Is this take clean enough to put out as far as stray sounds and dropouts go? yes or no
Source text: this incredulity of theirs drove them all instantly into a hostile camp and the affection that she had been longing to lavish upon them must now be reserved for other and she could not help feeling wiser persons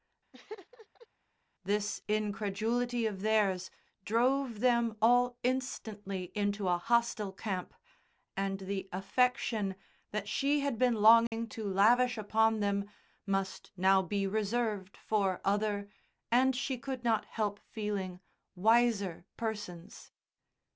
no